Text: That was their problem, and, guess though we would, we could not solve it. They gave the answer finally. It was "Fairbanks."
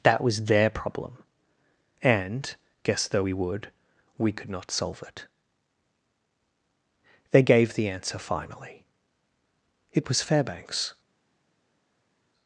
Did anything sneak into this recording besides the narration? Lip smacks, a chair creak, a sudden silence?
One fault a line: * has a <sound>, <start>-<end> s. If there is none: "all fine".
all fine